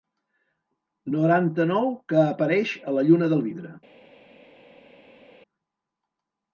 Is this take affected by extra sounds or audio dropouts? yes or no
no